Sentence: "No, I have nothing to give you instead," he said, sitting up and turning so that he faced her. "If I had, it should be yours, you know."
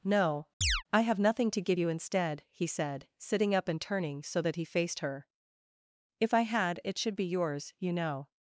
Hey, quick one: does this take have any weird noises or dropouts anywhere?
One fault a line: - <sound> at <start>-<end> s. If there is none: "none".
- chirp at 0.6-0.8 s